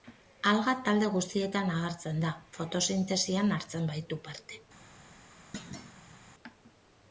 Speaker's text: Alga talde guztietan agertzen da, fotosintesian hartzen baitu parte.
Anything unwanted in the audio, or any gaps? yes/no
yes